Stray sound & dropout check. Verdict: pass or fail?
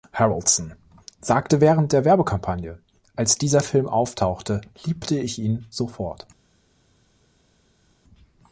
pass